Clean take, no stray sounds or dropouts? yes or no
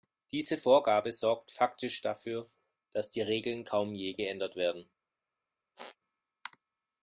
no